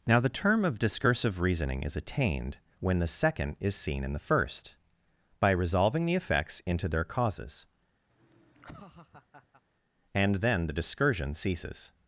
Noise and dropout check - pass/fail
fail